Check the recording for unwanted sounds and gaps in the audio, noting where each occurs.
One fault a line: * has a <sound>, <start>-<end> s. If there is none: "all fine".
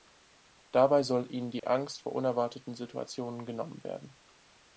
* has a dropout, 1.6-1.6 s